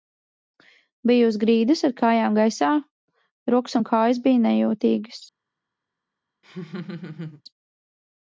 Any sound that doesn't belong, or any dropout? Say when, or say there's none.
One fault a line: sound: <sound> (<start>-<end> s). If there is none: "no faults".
sound: laugh (6.4-7.4 s)